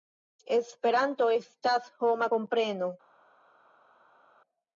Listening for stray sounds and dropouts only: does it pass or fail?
pass